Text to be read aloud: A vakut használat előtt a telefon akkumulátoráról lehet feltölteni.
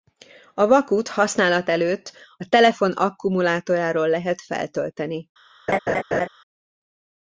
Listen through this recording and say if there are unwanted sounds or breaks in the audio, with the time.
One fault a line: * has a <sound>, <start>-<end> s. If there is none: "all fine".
* has a laugh, 5.7-6.3 s